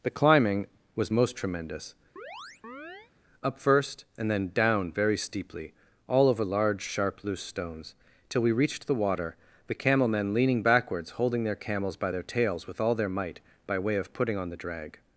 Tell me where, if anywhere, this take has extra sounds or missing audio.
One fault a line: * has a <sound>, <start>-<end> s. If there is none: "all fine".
* has a chirp, 2.2-3.1 s